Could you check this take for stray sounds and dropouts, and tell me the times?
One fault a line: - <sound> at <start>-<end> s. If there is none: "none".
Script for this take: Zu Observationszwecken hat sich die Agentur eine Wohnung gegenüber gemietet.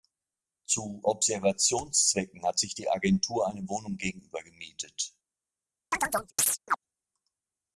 - chirp at 5.9-6.8 s